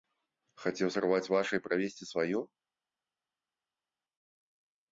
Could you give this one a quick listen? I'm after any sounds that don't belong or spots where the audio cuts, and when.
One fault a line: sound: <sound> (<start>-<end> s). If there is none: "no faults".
no faults